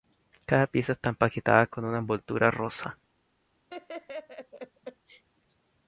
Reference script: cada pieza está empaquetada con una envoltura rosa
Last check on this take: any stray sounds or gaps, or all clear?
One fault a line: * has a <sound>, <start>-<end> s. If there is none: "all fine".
* has a laugh, 3.7-5.2 s